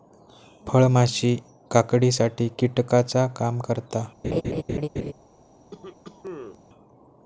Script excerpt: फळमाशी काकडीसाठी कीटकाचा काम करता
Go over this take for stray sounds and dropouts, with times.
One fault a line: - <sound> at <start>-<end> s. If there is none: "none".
- laugh at 4.2-5.1 s
- cough at 5.7-6.6 s